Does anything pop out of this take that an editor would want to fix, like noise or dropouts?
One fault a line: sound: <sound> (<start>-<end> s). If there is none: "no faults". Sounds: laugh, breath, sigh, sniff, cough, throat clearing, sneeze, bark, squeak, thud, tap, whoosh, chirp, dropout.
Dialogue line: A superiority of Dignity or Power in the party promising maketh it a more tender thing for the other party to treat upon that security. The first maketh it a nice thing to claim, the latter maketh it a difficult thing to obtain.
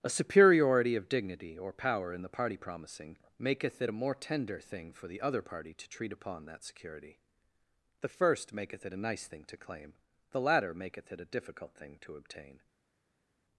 no faults